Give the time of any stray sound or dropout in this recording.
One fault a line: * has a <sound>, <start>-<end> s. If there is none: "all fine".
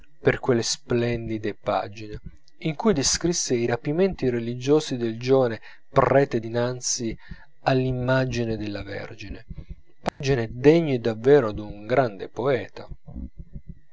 * has a dropout, 10.1-10.2 s